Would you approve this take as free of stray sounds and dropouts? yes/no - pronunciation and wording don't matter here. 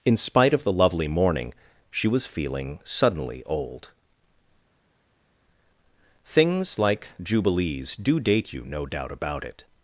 yes